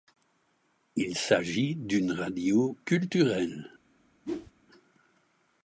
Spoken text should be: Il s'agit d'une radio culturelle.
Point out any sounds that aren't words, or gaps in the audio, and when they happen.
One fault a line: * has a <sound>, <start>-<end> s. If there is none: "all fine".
* has a whoosh, 4.2-4.5 s